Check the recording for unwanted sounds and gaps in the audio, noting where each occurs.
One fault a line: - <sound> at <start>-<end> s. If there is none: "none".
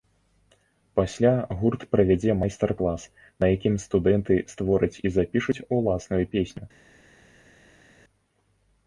none